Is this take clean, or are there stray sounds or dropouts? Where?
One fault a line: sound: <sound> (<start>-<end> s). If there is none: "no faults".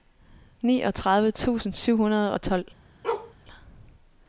sound: bark (3.0-3.3 s)